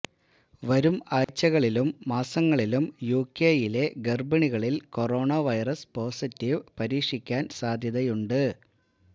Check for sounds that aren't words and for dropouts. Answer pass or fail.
fail